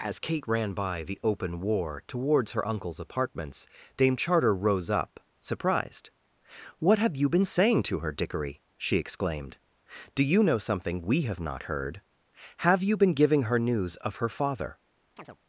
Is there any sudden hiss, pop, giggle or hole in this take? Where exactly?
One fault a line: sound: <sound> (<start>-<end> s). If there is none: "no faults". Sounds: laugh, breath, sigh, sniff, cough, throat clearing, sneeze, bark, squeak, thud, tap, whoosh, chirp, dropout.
sound: chirp (15.2-15.4 s)